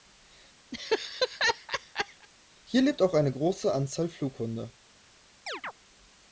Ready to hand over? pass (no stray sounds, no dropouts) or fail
fail